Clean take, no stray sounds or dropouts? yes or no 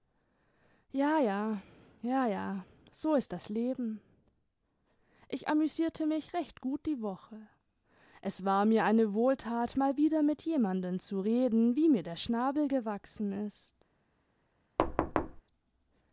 no